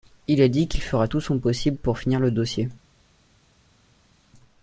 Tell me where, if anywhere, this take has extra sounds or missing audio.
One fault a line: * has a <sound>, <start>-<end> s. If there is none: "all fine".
all fine